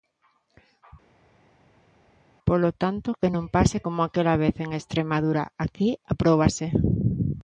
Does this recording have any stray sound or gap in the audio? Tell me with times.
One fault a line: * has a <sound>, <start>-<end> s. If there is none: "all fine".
all fine